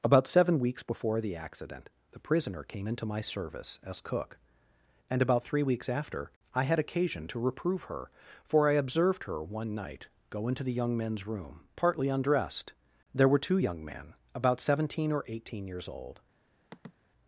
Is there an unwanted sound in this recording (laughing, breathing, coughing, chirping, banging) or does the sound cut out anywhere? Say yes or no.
yes